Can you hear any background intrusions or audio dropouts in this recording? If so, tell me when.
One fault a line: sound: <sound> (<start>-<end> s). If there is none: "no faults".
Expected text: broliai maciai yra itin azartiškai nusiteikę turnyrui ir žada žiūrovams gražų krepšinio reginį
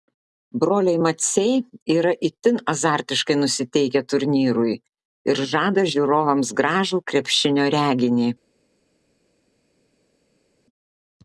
no faults